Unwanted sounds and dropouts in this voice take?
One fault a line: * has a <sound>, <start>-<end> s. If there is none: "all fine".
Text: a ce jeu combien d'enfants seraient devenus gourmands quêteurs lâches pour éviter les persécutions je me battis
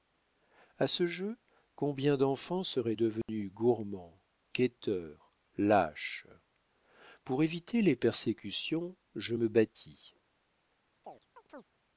* has a dropout, 3.2-3.3 s
* has a chirp, 11.0-11.6 s